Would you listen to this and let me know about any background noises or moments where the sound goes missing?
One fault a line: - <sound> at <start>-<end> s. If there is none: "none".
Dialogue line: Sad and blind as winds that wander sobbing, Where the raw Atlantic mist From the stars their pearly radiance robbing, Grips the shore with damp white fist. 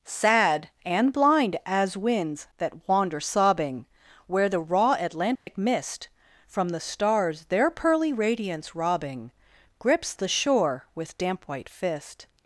- dropout at 5.4-5.5 s